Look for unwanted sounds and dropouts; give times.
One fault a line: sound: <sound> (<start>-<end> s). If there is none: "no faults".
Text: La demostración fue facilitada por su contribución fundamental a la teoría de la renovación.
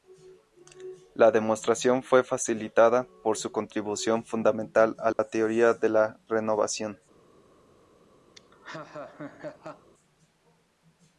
sound: dropout (5.1-5.2 s)
sound: laugh (8.4-9.9 s)